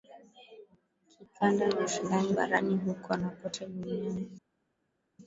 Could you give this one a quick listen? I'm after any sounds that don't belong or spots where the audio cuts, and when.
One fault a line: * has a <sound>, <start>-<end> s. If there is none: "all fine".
all fine